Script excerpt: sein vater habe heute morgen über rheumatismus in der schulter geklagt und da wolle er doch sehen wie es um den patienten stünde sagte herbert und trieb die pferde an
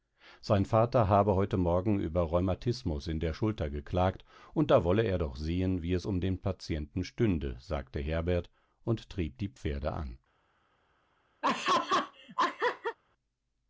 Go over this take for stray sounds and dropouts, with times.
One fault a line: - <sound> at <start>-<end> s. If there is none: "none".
- laugh at 11.4-13.0 s